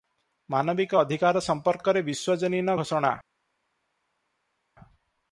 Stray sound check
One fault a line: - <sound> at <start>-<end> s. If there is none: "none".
none